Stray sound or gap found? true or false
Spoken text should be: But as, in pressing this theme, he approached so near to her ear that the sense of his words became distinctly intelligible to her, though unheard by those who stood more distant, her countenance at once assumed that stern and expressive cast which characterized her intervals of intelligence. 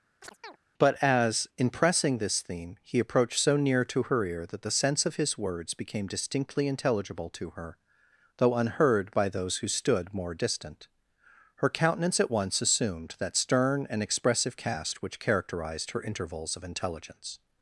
true